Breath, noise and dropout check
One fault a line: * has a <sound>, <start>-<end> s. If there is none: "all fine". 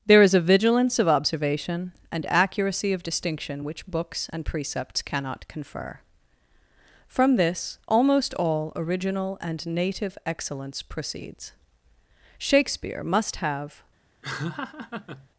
* has a laugh, 14.2-15.3 s